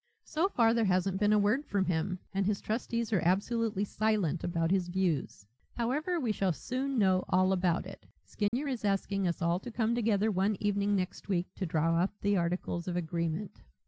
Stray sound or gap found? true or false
true